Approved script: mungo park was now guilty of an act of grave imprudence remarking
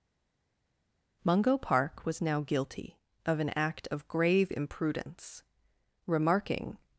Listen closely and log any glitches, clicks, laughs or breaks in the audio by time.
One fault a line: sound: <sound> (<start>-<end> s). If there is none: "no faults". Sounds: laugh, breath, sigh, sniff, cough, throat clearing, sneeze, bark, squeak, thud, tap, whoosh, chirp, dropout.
no faults